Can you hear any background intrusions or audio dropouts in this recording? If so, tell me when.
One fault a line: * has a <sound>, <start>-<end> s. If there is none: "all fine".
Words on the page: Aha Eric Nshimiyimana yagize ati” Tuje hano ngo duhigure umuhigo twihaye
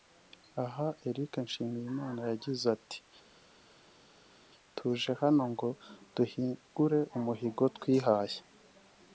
all fine